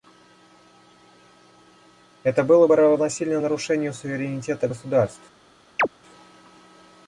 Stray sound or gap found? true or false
true